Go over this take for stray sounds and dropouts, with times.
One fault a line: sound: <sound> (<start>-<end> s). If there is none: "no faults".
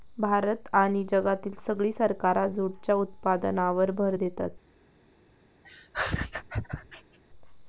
sound: laugh (5.6-7.2 s)